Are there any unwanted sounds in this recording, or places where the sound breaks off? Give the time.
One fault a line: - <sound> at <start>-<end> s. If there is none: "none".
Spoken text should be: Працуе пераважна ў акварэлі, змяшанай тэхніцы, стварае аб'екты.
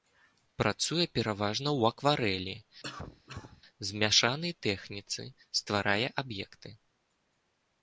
- cough at 2.8-3.6 s